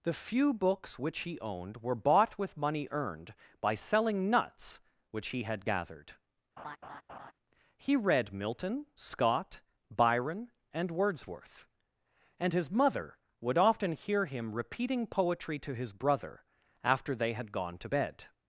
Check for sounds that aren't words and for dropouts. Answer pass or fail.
fail